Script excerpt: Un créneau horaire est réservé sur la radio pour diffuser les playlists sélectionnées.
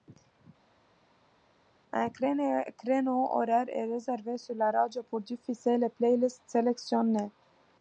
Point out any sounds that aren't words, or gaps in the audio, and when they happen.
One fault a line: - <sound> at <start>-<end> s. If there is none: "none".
none